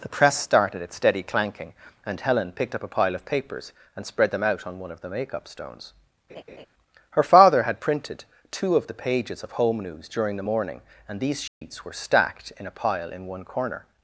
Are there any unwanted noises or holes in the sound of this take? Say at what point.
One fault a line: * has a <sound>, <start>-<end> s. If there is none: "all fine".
* has a laugh, 6.3-6.7 s
* has a dropout, 11.5-11.6 s